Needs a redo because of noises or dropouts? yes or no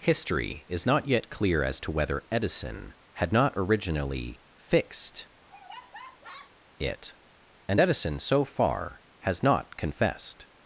yes